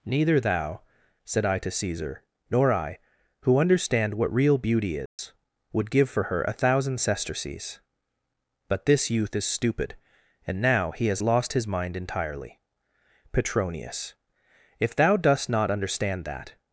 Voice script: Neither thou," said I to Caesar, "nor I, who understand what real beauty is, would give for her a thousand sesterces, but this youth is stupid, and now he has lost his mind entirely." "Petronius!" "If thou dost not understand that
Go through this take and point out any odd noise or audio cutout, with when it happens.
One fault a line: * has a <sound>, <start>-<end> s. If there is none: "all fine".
* has a dropout, 5.1-5.2 s